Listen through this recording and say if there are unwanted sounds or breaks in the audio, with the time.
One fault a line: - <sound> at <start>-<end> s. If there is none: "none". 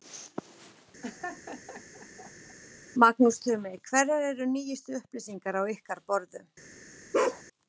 - laugh at 1.0-2.6 s
- bark at 7.1-7.4 s